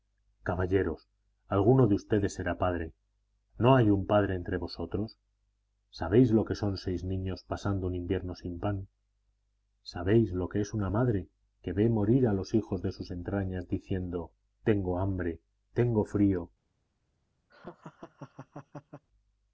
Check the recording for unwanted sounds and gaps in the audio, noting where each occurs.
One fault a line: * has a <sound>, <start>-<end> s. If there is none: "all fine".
* has a laugh, 17.5-19.0 s